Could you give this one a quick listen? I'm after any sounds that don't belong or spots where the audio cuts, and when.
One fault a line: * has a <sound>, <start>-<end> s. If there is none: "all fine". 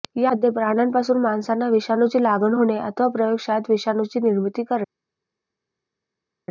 all fine